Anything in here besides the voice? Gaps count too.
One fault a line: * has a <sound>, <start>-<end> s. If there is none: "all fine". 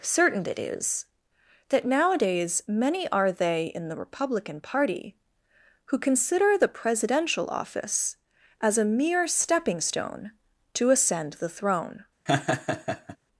* has a laugh, 12.3-13.2 s